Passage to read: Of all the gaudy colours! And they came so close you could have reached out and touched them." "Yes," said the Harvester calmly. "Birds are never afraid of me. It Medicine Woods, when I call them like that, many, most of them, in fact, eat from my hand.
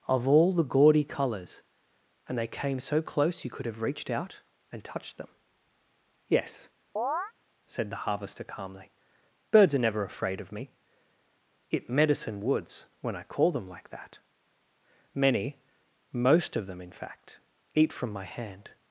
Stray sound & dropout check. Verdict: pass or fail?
fail